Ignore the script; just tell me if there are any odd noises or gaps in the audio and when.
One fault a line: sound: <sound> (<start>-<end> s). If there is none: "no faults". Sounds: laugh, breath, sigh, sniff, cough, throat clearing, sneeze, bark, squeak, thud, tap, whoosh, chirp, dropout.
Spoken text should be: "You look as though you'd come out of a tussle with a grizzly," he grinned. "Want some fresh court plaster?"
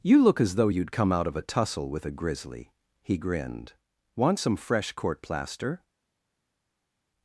no faults